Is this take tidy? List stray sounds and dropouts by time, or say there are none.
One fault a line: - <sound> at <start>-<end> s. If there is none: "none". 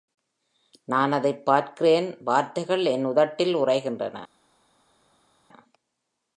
none